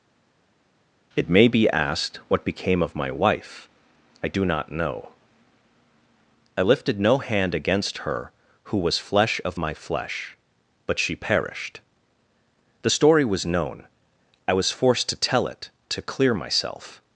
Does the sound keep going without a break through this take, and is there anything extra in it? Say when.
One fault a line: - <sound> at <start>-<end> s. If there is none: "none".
none